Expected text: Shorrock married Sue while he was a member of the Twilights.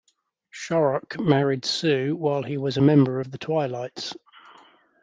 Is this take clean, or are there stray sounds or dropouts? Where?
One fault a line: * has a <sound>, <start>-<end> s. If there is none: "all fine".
all fine